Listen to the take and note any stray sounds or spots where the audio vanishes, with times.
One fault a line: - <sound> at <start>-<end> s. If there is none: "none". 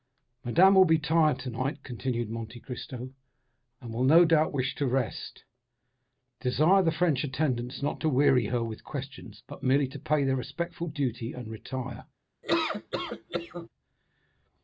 - laugh at 12.4-13.7 s